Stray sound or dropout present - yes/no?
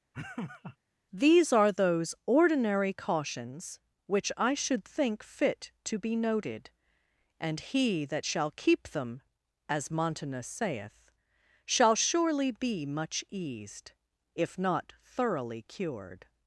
yes